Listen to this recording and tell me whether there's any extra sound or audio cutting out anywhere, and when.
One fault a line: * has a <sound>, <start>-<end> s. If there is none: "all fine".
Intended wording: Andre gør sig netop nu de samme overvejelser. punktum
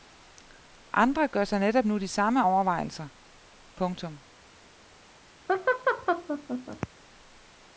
* has a laugh, 5.5-6.9 s